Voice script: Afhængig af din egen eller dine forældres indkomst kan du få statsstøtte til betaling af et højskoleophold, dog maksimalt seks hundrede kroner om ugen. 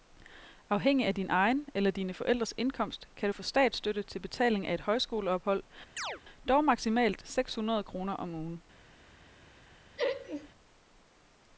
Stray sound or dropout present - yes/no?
yes